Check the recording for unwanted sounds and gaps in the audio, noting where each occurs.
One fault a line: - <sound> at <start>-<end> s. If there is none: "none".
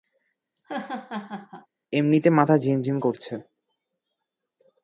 - laugh at 0.6-1.7 s